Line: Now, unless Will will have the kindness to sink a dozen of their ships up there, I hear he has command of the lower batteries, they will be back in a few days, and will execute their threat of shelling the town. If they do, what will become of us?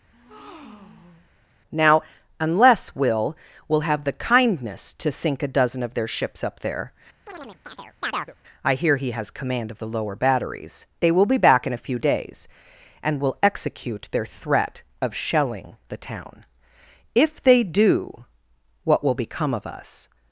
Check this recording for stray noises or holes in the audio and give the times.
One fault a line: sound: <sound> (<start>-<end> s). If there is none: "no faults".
sound: breath (0.1-1.3 s)
sound: chirp (7.3-8.3 s)